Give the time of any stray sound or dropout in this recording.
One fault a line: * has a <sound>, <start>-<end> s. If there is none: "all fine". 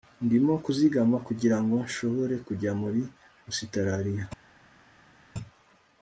all fine